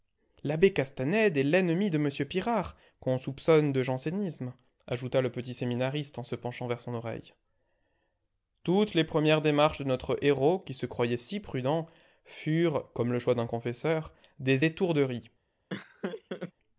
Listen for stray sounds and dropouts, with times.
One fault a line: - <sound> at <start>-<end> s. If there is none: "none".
- laugh at 15.7-16.5 s